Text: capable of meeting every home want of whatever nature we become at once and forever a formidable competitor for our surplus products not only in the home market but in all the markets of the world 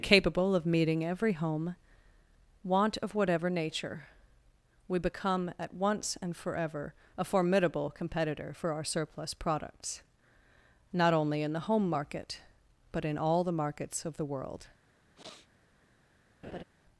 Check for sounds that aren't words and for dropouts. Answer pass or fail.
fail